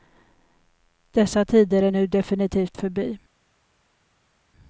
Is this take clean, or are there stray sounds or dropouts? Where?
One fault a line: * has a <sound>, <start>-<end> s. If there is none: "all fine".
all fine